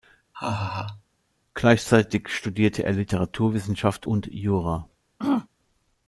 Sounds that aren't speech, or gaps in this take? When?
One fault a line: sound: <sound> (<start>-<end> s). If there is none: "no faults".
sound: laugh (0.3-1.0 s)
sound: throat clearing (5.2-5.5 s)